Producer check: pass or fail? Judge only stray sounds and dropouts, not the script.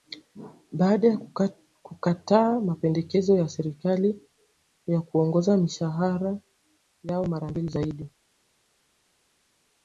pass